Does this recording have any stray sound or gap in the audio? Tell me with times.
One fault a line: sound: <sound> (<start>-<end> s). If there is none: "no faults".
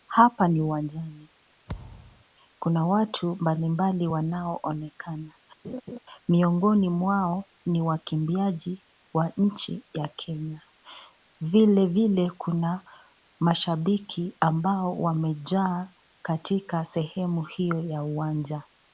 sound: thud (1.7-2.2 s)
sound: laugh (5.6-6.0 s)